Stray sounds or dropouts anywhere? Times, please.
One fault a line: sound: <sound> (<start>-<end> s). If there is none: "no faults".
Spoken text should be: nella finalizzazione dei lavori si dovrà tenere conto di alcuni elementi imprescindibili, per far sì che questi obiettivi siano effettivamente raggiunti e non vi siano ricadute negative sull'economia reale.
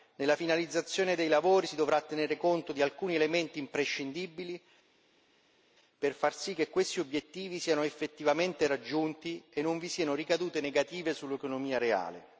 no faults